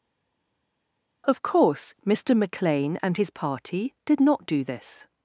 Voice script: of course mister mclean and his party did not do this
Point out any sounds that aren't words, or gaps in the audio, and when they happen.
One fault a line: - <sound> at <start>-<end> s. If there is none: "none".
none